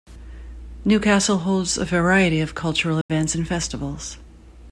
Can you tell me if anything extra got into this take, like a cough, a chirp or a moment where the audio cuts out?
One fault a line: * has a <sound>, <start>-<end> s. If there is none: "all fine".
* has a dropout, 3.0-3.1 s